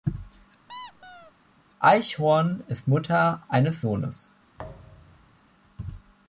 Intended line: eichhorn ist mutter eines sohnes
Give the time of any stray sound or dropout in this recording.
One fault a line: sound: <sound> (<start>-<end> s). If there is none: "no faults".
sound: squeak (0.7-1.3 s)
sound: thud (4.6-5.4 s)